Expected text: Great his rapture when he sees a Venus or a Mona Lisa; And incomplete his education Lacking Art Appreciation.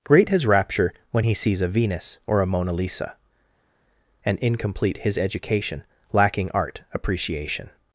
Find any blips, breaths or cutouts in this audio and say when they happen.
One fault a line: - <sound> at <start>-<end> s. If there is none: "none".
none